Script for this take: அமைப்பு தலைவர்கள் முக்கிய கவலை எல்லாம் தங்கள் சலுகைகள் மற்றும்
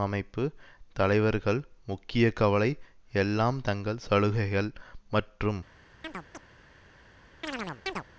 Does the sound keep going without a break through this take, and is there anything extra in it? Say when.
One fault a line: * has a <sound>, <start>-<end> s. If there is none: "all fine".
* has a chirp, 6.0-6.4 s
* has a chirp, 7.4-8.0 s